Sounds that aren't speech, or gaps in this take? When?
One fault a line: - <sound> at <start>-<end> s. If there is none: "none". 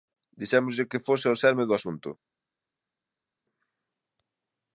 none